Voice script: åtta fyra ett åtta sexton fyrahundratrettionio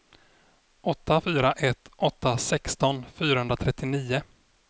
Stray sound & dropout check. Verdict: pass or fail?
pass